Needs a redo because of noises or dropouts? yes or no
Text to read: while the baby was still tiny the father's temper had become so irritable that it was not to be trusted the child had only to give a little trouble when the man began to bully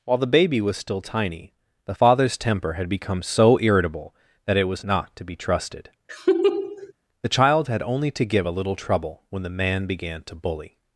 yes